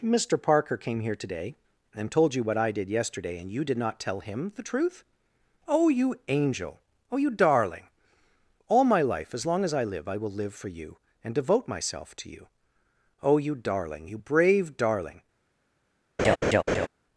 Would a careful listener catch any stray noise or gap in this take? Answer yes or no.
yes